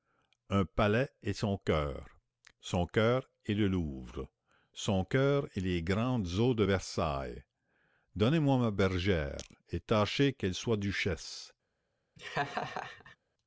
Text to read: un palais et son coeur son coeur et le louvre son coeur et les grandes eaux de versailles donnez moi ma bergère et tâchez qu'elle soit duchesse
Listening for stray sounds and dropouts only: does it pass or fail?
fail